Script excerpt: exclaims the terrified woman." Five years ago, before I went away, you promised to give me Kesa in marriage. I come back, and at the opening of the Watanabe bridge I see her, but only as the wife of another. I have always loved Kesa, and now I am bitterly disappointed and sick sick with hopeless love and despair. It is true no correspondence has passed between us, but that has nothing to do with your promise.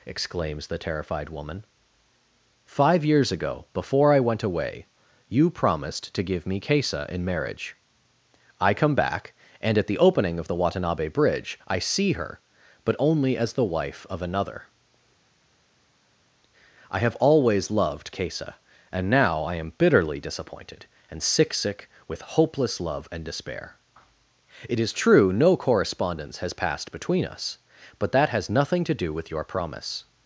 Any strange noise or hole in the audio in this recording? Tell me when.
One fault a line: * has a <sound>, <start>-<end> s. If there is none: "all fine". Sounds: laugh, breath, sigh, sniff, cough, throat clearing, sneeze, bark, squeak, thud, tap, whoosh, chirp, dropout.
all fine